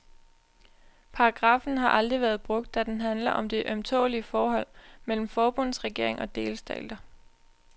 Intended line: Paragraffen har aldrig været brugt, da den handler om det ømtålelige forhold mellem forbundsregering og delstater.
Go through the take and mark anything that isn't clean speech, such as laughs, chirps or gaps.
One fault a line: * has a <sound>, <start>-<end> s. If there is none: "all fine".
all fine